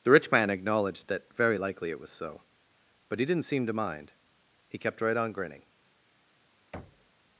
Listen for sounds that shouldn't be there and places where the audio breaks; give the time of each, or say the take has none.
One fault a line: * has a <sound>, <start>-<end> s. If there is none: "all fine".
* has a thud, 6.7-7.1 s